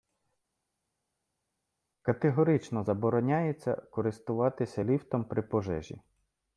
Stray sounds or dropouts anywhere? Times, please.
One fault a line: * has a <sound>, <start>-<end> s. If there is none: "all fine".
all fine